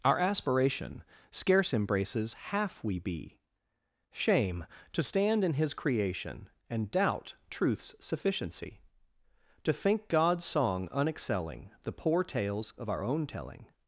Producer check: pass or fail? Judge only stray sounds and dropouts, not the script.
pass